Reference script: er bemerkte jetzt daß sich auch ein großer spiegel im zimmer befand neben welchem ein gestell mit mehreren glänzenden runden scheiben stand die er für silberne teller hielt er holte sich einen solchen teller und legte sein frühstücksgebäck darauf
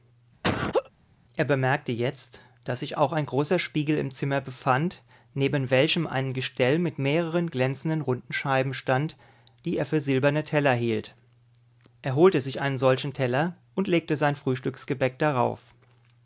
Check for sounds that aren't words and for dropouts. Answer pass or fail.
fail